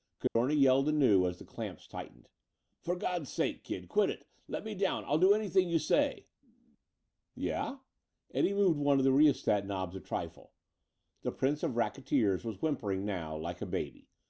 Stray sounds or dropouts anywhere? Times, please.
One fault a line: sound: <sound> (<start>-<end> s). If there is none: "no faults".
sound: dropout (0.3-0.4 s)